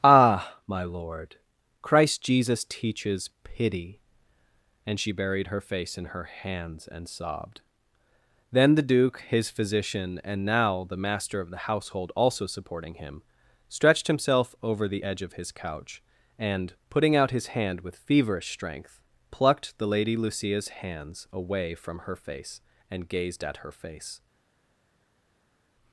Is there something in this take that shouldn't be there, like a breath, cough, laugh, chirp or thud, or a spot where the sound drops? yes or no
no